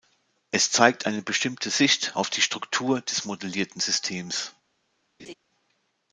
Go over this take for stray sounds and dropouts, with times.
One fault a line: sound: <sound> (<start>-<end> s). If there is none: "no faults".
sound: laugh (5.2-5.3 s)